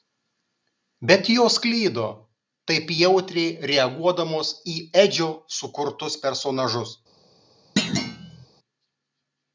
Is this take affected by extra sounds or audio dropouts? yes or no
yes